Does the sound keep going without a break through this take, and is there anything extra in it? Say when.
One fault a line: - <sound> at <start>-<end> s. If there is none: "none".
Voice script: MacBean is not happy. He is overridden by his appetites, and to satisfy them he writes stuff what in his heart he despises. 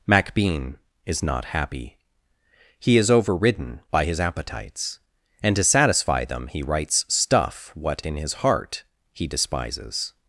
none